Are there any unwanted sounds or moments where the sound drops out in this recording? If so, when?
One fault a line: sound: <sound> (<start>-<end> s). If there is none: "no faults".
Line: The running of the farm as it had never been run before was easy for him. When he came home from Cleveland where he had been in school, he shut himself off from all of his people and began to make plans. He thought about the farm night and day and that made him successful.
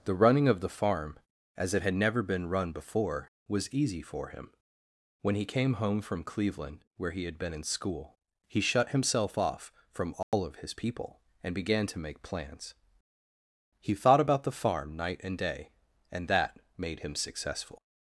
sound: dropout (10.2-10.3 s)